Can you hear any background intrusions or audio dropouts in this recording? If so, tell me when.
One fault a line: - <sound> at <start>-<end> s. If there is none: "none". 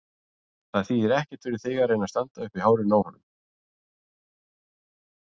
none